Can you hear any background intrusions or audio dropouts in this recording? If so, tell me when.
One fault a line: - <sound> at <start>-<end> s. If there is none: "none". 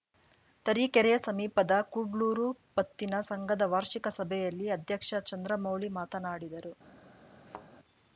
- thud at 7.5-7.7 s